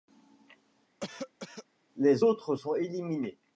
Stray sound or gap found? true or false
true